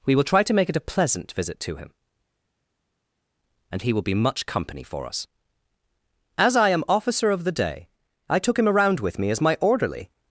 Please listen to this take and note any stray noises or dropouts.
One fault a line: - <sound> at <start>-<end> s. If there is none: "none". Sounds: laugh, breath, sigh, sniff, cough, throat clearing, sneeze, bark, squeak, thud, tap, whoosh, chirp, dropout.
none